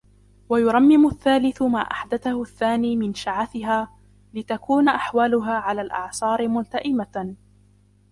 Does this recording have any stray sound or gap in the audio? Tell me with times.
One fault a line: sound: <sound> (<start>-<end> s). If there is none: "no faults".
no faults